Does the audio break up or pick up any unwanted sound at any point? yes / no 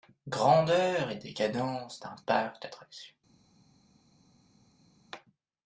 no